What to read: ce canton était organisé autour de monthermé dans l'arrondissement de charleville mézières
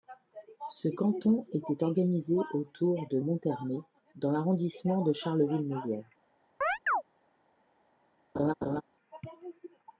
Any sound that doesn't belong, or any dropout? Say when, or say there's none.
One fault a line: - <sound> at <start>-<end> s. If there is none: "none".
- chirp at 6.6-7.0 s
- laugh at 8.3-8.8 s